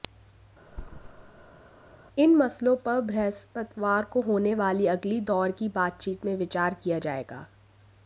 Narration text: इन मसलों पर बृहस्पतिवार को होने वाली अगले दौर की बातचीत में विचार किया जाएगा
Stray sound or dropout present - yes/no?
yes